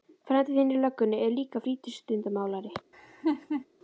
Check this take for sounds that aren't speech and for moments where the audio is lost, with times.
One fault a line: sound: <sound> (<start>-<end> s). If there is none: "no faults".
sound: laugh (2.9-3.7 s)